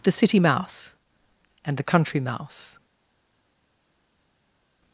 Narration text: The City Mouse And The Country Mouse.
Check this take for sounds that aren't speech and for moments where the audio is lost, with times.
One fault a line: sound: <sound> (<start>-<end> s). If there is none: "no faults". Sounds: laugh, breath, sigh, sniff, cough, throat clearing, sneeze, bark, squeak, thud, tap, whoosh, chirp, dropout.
no faults